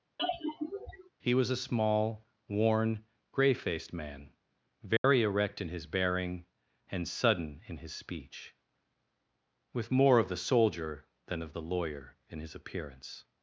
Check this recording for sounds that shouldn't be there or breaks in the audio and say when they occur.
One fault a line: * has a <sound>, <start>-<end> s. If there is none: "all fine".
* has a sigh, 0.2-1.1 s
* has a dropout, 5.0-5.0 s